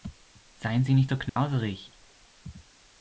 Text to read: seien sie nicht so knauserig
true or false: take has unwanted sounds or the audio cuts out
true